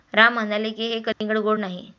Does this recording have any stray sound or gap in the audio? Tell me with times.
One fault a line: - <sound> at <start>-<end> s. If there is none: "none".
- dropout at 1.1-1.2 s